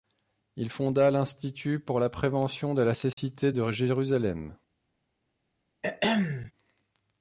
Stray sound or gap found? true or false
true